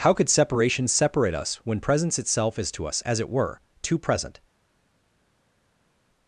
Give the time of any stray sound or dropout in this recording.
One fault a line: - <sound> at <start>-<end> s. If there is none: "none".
none